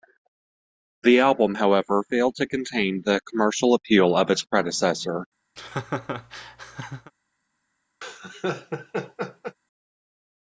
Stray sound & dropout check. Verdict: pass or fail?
fail